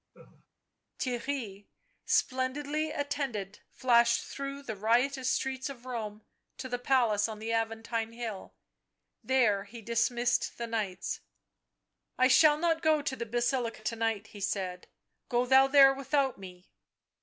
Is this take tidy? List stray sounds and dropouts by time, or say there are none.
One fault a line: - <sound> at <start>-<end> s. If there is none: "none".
- laugh at 0.1-0.5 s